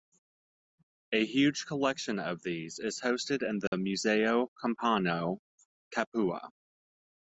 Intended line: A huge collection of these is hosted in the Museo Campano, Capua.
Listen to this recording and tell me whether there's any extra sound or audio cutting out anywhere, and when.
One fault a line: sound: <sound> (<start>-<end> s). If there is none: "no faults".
sound: dropout (3.7-3.7 s)